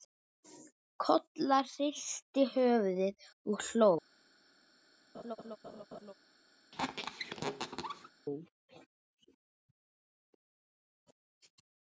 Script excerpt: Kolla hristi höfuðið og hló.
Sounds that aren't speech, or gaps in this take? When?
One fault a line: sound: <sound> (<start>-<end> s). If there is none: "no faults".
sound: laugh (5.1-6.1 s)
sound: squeak (6.7-8.1 s)